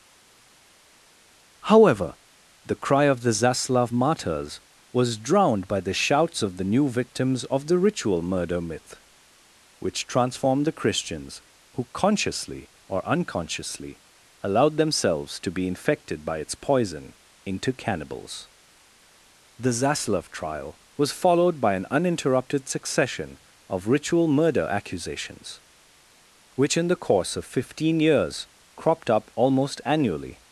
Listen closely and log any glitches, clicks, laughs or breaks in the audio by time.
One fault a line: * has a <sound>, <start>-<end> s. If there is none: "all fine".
all fine